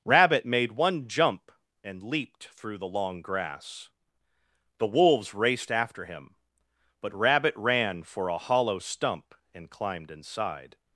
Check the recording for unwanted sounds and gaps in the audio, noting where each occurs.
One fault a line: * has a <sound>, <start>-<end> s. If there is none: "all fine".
all fine